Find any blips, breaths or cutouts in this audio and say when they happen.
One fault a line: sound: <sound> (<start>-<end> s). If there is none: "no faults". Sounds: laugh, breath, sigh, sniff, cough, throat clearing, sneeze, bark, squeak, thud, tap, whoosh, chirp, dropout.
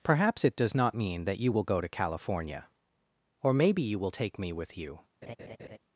sound: laugh (5.2-5.8 s)